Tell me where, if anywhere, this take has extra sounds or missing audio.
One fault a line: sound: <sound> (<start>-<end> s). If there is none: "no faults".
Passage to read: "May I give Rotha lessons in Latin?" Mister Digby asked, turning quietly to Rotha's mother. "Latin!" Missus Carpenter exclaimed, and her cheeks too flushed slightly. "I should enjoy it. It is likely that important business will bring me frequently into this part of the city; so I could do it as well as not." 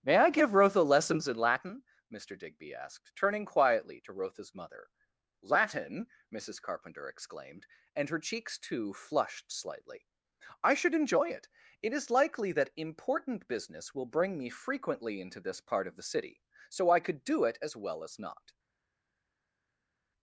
no faults